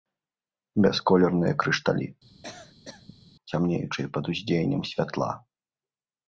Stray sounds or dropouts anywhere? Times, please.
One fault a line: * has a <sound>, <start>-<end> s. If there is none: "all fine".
* has a cough, 2.3-3.3 s